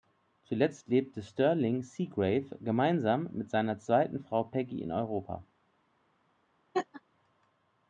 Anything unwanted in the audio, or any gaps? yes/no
yes